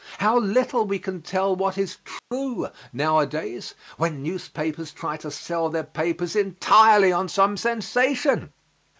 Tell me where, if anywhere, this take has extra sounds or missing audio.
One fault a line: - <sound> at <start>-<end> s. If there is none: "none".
- dropout at 2.2-2.3 s